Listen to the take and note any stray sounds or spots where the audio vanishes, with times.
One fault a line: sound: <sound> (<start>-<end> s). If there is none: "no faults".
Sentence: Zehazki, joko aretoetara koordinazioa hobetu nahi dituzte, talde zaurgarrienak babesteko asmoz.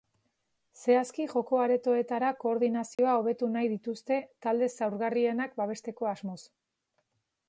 sound: dropout (2.9-3.0 s)